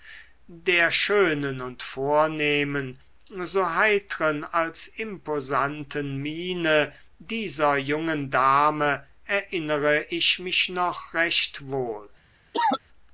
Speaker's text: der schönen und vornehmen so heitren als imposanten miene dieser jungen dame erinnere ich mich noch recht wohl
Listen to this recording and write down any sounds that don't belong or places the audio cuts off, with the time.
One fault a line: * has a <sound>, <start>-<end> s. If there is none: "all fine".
* has a cough, 12.5-12.8 s